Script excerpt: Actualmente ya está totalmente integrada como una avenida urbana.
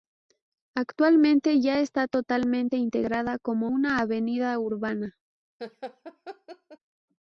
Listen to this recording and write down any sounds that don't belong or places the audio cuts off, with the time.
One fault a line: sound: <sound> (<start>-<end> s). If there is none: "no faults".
sound: laugh (5.6-6.8 s)